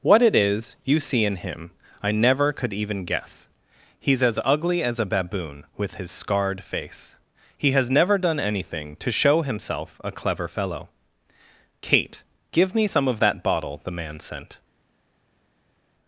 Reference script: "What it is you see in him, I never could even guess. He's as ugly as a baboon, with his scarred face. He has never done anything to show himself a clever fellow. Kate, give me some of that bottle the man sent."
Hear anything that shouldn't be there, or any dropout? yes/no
no